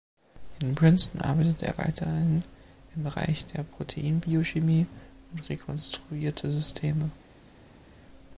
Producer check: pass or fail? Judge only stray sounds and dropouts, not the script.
pass